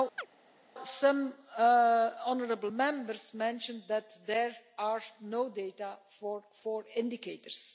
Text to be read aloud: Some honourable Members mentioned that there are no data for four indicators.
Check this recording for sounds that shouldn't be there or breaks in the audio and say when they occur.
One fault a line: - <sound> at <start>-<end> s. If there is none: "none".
- chirp at 0.2-0.3 s